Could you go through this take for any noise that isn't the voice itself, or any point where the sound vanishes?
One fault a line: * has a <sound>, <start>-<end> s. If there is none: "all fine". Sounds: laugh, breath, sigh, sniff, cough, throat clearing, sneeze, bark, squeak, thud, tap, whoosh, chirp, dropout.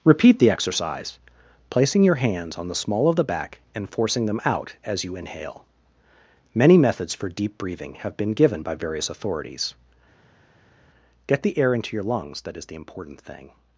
all fine